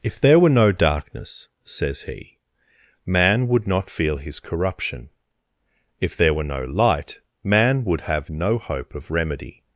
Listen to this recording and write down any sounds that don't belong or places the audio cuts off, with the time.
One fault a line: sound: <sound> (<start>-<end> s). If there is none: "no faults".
no faults